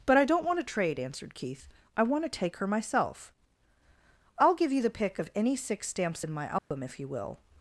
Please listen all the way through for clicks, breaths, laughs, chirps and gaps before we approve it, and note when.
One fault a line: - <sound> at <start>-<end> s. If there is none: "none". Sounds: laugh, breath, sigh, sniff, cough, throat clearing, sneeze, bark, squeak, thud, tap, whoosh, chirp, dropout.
- dropout at 6.6-6.7 s